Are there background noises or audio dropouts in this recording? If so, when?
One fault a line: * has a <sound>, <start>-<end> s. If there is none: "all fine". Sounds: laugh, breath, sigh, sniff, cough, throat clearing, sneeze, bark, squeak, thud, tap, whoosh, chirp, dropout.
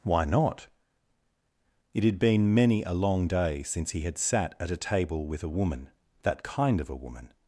all fine